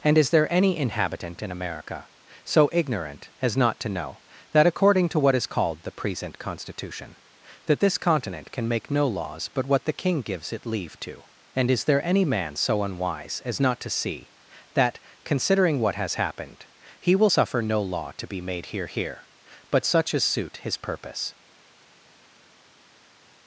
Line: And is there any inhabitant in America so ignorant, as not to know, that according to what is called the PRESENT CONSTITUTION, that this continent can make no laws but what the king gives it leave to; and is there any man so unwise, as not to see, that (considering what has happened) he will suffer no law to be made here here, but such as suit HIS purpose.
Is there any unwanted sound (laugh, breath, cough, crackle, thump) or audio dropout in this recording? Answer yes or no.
no